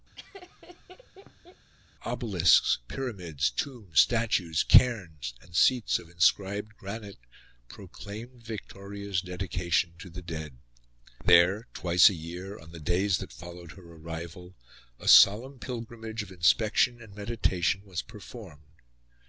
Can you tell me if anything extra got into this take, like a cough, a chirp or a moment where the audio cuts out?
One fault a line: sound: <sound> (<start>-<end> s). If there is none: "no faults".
sound: laugh (0.2-1.7 s)